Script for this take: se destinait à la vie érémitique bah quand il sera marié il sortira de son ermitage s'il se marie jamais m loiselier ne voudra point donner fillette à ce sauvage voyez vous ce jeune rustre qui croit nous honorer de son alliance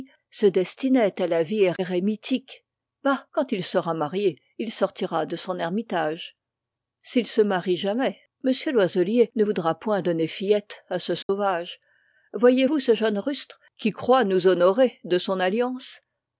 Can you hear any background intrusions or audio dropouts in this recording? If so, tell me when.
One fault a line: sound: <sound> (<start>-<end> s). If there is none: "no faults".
sound: dropout (11.2-11.3 s)